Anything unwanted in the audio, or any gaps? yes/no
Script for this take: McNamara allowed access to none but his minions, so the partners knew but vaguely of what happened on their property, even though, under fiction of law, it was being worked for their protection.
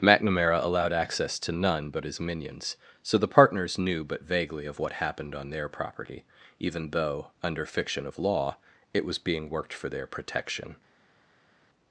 no